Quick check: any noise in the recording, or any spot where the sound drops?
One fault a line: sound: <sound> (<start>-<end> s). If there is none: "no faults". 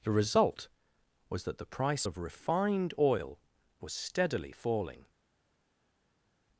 no faults